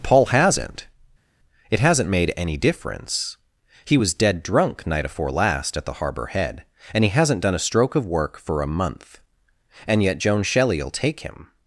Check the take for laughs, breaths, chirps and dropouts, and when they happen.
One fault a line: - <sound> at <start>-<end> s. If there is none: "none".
none